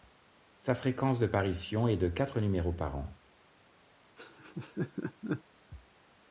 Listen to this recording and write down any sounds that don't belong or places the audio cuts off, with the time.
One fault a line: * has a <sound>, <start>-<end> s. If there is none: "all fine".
* has a laugh, 4.2-5.4 s